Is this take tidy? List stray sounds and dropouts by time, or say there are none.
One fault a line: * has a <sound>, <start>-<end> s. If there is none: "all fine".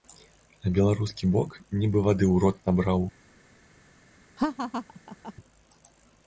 * has a laugh, 4.4-5.3 s